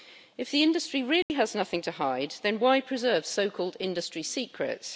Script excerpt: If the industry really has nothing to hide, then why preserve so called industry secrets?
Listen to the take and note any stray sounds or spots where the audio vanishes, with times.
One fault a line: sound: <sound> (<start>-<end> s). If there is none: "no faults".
sound: dropout (1.2-1.3 s)